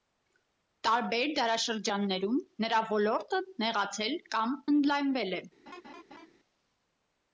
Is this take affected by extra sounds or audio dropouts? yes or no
yes